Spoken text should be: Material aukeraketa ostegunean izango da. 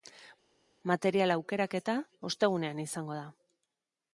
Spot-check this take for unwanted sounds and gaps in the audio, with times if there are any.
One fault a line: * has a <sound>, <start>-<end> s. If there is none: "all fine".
all fine